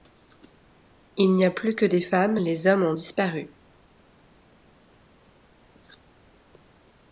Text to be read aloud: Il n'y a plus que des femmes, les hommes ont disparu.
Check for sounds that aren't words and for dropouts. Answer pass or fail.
pass